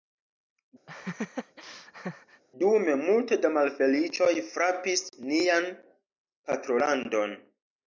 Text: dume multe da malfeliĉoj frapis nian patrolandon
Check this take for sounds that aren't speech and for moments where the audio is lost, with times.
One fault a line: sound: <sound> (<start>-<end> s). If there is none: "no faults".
sound: laugh (0.9-2.4 s)